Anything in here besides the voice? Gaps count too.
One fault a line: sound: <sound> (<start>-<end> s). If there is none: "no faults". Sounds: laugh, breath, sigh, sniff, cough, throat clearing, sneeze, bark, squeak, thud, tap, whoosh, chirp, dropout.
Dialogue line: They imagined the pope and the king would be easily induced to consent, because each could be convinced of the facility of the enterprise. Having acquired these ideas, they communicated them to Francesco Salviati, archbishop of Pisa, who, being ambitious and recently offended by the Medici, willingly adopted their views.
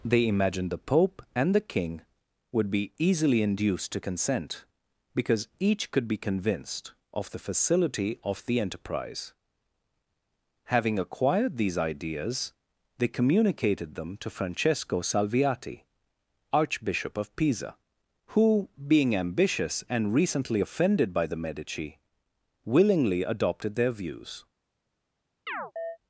sound: chirp (25.5-26.0 s)